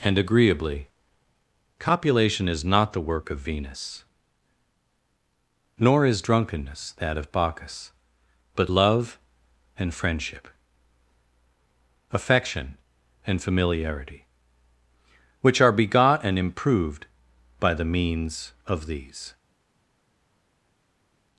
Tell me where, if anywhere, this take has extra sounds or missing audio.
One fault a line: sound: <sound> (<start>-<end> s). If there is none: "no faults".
no faults